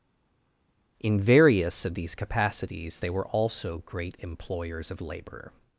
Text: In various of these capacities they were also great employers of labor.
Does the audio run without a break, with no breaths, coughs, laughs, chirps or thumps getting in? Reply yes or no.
yes